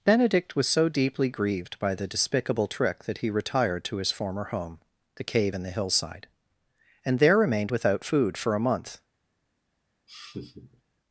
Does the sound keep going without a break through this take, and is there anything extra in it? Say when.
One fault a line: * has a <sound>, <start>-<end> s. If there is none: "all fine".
* has a laugh, 10.1-10.8 s